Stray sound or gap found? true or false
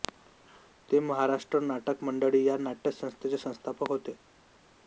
false